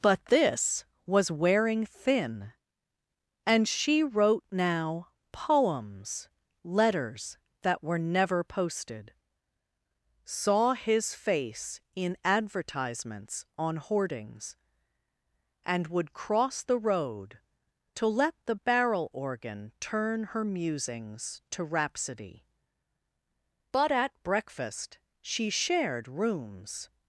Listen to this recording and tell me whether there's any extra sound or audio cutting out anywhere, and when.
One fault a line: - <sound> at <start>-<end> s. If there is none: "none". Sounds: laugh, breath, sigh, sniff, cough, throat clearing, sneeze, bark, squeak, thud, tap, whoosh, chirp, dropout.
none